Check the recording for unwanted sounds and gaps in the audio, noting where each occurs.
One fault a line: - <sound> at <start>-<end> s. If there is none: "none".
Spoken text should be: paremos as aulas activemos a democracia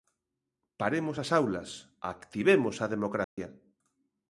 - dropout at 3.2-3.4 s